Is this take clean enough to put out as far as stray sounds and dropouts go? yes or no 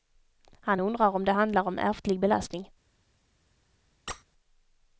no